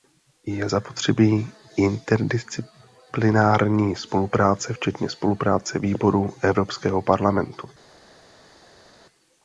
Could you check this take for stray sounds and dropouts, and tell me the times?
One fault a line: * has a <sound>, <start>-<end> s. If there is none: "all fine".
all fine